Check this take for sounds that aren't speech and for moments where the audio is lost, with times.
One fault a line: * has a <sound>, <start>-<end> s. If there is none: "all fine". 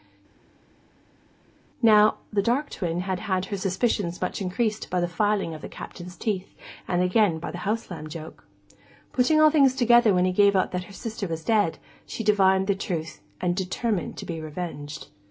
all fine